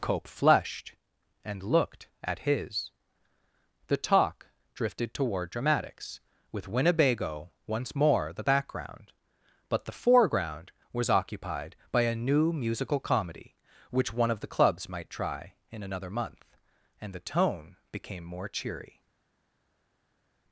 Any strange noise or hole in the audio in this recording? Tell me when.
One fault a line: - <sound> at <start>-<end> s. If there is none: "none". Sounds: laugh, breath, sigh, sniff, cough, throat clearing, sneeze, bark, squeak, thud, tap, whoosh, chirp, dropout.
none